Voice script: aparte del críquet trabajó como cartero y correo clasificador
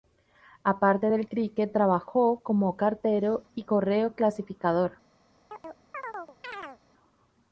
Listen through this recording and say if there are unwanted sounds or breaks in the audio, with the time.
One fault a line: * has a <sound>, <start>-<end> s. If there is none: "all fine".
* has a chirp, 5.5-6.8 s